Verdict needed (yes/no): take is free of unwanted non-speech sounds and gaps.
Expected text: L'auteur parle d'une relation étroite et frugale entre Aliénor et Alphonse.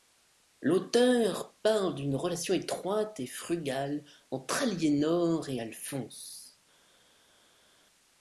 yes